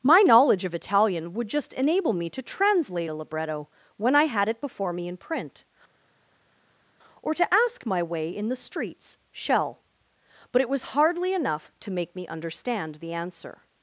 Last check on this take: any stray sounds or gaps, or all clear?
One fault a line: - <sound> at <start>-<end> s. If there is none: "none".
none